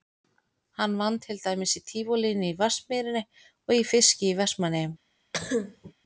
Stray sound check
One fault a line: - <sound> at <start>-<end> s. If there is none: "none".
- cough at 5.3-5.9 s